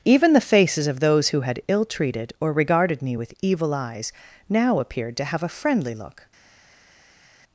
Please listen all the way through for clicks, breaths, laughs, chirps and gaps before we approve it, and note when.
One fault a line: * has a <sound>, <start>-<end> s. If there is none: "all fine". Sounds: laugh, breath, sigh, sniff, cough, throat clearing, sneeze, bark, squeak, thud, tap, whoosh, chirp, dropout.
all fine